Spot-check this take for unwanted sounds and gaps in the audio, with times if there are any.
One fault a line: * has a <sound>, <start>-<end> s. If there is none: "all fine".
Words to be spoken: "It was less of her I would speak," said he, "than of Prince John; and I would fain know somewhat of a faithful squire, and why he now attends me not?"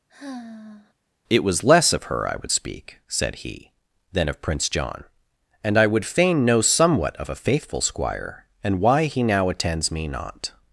* has a sigh, 0.1-0.9 s